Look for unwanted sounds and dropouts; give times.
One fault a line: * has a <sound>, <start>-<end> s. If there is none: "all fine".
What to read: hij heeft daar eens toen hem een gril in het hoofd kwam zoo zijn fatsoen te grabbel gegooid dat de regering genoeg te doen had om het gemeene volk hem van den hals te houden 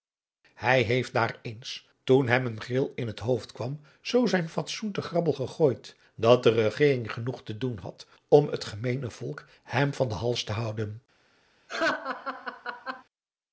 * has a laugh, 11.7-13.0 s